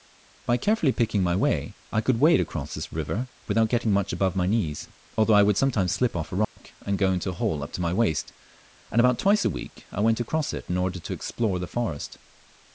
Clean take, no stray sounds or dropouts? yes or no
no